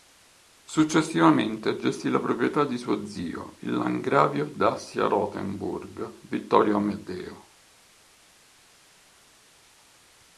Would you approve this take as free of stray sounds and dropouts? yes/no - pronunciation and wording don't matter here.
yes